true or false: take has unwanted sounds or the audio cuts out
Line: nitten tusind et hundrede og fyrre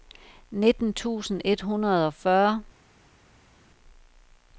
false